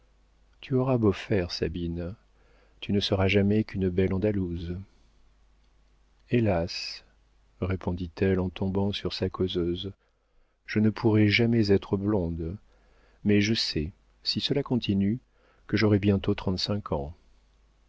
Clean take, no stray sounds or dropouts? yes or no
yes